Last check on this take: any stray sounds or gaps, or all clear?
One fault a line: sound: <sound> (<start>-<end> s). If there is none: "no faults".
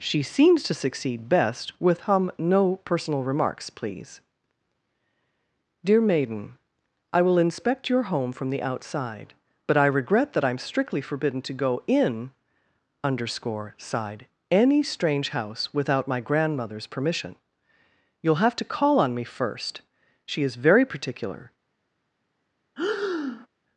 sound: breath (22.8-23.5 s)